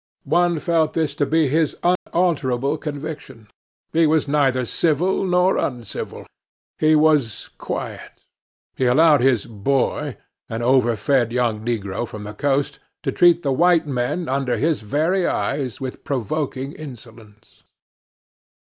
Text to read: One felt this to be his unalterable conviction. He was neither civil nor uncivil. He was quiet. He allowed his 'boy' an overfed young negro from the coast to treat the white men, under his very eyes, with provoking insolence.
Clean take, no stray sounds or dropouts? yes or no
no